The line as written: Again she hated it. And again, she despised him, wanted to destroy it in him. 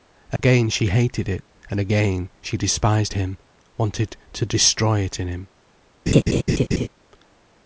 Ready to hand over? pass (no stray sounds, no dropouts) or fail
fail